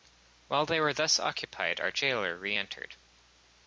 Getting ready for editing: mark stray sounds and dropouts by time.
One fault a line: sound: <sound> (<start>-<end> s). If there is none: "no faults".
no faults